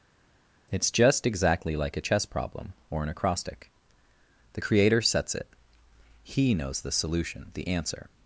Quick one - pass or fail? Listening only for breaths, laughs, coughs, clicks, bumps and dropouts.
pass